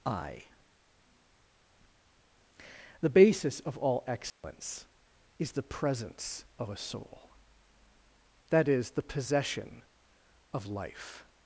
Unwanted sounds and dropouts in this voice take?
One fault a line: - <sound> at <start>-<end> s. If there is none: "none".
- dropout at 4.3-4.4 s